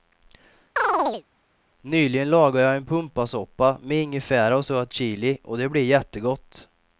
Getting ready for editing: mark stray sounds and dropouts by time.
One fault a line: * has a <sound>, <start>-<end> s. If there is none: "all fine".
* has a chirp, 0.8-1.2 s